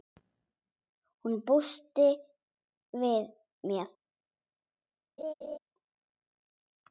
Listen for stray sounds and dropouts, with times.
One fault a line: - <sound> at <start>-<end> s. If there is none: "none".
- laugh at 5.2-5.6 s